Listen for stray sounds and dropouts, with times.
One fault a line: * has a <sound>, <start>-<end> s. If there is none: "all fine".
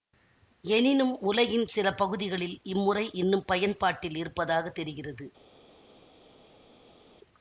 all fine